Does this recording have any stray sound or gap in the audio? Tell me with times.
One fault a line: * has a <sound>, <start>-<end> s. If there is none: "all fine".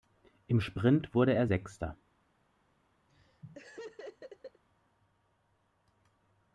* has a laugh, 3.1-4.6 s